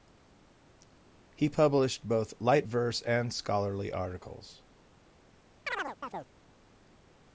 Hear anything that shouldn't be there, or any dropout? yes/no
yes